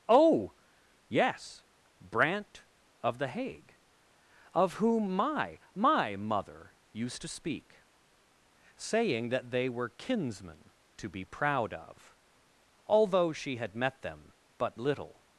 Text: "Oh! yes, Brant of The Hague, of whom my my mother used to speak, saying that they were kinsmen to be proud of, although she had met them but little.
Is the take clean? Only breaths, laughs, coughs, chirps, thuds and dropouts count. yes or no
yes